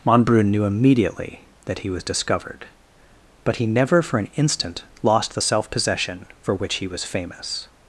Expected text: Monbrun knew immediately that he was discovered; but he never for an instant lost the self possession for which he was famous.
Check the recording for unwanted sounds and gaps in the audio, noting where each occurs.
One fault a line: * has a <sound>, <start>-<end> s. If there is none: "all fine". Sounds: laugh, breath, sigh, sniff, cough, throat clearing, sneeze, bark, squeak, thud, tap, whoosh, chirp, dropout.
all fine